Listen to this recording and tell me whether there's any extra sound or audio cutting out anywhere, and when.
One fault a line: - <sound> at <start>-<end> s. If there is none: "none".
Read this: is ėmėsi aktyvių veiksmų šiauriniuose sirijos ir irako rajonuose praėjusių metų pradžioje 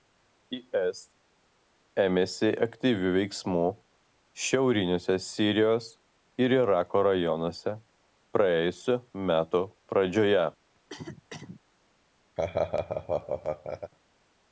- cough at 10.8-11.6 s
- laugh at 12.4-13.9 s